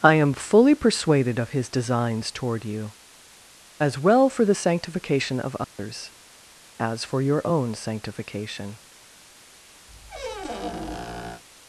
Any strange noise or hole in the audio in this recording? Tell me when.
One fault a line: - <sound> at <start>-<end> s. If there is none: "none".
- dropout at 5.6-5.8 s
- squeak at 9.9-11.4 s